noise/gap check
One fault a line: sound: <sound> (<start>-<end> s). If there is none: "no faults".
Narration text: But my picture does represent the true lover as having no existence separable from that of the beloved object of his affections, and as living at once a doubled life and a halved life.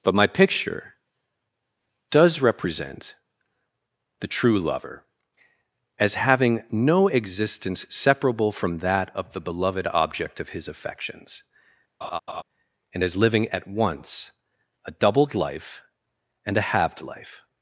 sound: laugh (12.0-12.4 s)